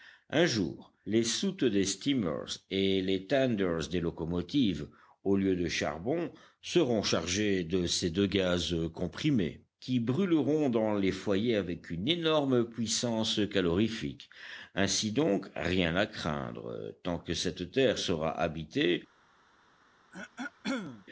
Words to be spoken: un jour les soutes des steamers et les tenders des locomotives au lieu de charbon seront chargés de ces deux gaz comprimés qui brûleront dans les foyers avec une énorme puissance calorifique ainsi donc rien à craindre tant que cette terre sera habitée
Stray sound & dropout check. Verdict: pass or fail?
fail